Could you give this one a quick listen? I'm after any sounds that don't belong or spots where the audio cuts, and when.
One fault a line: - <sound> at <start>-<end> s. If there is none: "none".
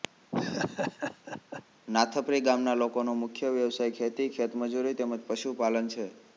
- laugh at 0.3-1.6 s